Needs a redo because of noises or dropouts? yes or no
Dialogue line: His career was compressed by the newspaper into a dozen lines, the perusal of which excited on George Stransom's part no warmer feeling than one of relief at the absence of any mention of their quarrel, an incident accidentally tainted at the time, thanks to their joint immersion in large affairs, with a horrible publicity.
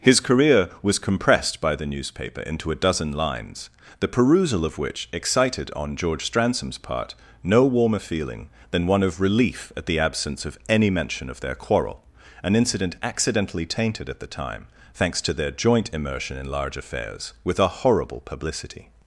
no